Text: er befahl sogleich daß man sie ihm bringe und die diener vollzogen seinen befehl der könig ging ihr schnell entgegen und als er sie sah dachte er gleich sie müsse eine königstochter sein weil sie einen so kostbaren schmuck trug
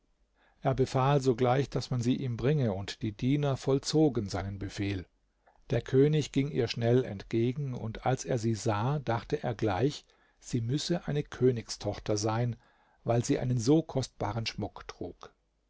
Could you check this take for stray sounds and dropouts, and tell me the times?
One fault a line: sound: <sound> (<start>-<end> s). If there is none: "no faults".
no faults